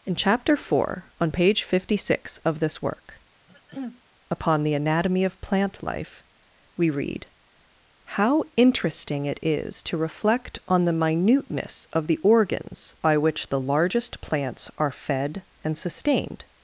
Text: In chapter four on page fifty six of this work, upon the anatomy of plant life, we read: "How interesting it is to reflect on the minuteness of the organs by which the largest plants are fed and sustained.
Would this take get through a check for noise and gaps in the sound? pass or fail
fail